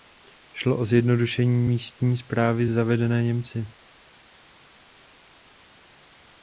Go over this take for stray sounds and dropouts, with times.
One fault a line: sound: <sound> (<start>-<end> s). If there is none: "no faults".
no faults